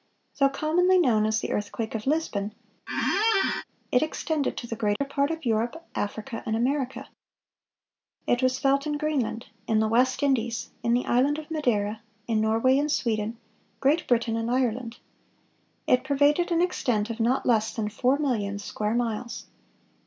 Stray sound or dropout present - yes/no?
yes